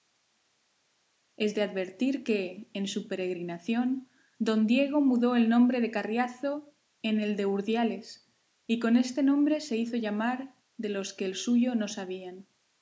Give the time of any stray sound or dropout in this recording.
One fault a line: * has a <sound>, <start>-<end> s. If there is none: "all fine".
all fine